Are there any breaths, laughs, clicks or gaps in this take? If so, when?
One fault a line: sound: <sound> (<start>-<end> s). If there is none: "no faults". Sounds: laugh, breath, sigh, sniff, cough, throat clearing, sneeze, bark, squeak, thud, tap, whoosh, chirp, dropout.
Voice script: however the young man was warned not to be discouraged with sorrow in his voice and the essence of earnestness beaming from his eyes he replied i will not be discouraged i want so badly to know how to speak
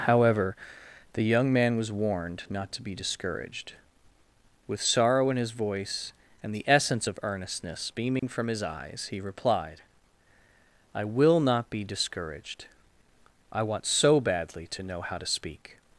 sound: dropout (8.2-8.2 s)